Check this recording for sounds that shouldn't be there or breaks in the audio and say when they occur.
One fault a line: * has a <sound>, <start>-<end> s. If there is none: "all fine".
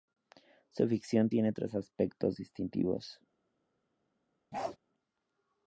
* has a bark, 4.5-4.8 s